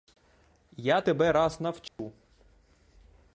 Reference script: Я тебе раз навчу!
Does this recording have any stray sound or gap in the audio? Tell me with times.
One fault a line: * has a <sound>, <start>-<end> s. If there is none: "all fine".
* has a dropout, 1.9-2.0 s